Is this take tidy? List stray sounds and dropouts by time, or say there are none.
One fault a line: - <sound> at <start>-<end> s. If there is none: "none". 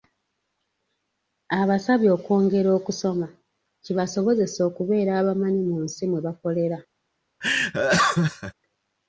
- laugh at 7.4-8.5 s